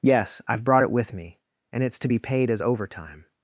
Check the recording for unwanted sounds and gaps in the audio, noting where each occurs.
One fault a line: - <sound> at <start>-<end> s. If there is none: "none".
none